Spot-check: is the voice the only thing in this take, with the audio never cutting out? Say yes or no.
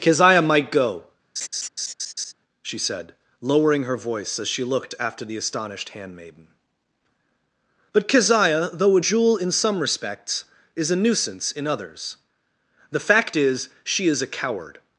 no